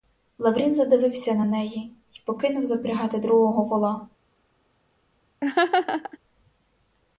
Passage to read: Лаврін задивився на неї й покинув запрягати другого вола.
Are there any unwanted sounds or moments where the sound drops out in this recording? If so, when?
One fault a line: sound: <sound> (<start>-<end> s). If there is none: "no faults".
sound: laugh (5.4-6.2 s)